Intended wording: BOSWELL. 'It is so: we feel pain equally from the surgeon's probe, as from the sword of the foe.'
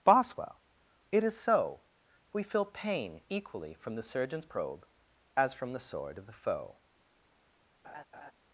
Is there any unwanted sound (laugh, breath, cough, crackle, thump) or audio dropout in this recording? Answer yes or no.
yes